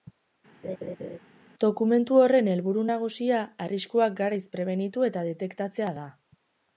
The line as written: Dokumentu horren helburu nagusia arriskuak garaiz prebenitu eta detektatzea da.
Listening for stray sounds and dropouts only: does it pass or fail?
fail